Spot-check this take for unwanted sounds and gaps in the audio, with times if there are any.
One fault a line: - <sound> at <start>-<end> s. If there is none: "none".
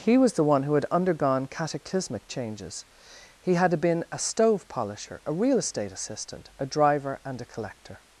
none